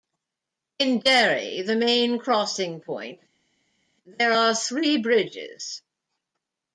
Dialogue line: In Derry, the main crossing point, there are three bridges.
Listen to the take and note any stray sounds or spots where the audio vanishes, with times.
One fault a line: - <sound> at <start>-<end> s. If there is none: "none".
none